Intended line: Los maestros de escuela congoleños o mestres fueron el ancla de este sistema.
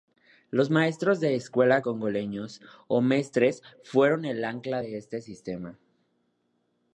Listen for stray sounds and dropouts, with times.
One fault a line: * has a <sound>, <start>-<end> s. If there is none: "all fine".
all fine